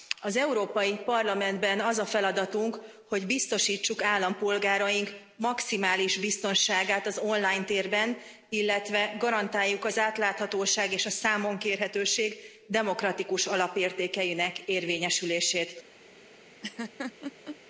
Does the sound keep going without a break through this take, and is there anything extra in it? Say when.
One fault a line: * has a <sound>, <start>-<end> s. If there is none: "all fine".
* has a laugh, 16.6-17.6 s